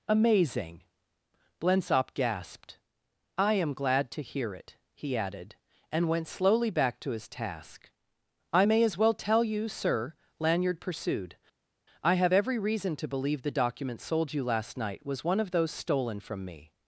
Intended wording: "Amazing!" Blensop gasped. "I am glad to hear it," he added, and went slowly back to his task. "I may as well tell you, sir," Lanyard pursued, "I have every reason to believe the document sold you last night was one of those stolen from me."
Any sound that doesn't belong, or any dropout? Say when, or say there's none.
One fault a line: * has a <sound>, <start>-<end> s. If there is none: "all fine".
all fine